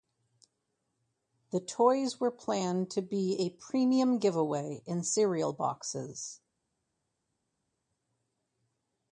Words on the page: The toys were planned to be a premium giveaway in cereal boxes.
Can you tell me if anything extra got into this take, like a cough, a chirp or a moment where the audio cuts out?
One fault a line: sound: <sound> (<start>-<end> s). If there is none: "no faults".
no faults